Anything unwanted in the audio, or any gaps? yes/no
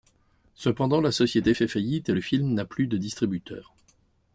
no